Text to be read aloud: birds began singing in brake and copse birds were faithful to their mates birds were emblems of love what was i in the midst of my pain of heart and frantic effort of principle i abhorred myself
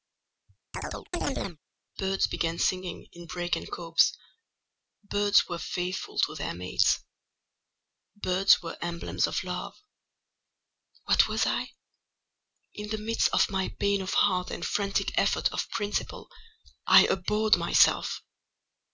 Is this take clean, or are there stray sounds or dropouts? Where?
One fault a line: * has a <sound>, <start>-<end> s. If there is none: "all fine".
* has a chirp, 0.7-1.6 s